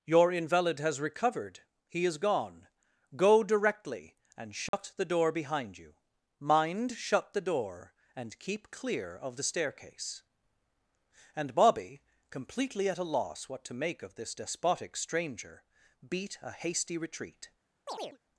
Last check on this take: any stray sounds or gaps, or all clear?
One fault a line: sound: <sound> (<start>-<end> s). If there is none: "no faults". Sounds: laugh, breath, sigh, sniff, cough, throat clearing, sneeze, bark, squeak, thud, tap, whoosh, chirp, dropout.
sound: dropout (4.7-4.7 s)
sound: chirp (17.9-18.2 s)